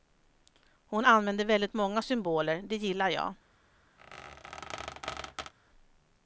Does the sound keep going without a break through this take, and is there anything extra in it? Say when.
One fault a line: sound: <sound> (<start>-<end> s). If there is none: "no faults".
sound: squeak (4.0-5.5 s)